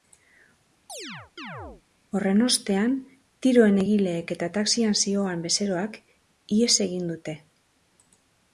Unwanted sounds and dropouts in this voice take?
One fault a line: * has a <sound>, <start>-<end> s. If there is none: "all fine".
* has a chirp, 0.9-1.8 s